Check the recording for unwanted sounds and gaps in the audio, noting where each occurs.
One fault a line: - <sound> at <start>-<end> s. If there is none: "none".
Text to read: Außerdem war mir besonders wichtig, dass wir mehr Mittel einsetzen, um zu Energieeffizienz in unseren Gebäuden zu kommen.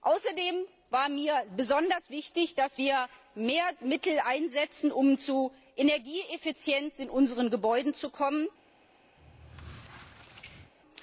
- squeak at 9.2-10.7 s